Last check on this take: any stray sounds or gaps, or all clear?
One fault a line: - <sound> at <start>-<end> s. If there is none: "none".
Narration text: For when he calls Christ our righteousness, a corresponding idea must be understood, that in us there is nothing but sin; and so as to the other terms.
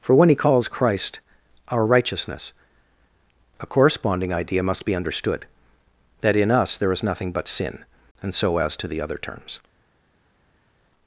none